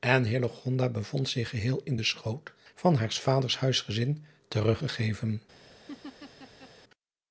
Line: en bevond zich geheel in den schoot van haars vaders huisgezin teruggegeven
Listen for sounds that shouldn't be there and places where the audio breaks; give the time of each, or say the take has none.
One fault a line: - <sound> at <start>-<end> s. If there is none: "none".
- laugh at 5.9-6.7 s